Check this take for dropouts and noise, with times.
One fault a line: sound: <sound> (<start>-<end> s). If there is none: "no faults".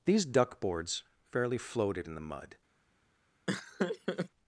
sound: laugh (3.5-4.3 s)